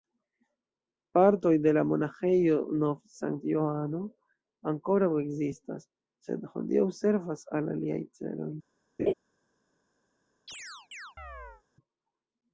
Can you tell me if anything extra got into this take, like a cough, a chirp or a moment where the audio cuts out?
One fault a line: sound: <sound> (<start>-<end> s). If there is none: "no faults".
sound: laugh (9.0-9.1 s)
sound: chirp (10.5-11.6 s)